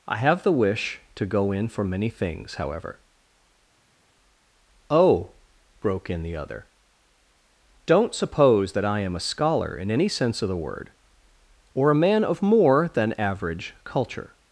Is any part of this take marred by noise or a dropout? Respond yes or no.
no